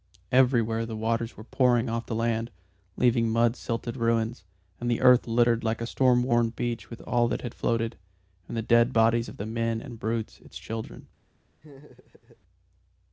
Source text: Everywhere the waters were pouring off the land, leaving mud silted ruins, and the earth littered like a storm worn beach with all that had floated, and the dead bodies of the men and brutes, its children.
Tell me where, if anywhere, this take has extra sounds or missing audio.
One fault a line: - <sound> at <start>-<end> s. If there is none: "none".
- laugh at 11.6-12.4 s